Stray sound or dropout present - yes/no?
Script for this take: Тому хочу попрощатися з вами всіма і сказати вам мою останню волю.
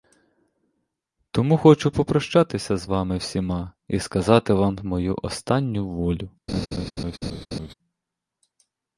yes